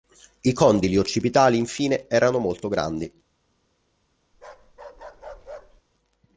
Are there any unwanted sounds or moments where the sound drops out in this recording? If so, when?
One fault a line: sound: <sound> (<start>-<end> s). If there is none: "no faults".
sound: bark (4.3-5.8 s)